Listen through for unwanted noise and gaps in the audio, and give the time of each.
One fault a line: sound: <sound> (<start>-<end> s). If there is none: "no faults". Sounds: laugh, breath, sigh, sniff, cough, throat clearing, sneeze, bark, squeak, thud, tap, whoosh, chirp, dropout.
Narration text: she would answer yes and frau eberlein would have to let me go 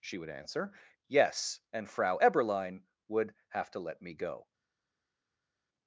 no faults